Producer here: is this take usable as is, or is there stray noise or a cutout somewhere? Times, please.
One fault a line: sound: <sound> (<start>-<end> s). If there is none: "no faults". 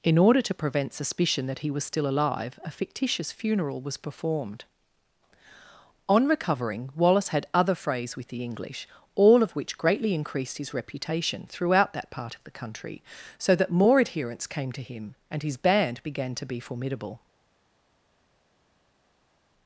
no faults